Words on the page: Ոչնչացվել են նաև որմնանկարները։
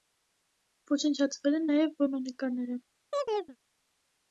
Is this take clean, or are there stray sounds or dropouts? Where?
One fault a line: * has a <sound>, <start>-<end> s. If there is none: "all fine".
* has a chirp, 3.1-3.6 s